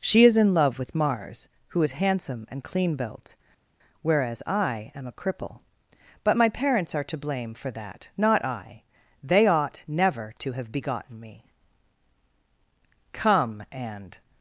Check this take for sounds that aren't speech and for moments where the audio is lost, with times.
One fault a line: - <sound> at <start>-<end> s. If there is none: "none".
none